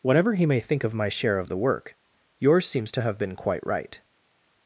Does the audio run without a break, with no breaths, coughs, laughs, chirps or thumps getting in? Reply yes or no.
yes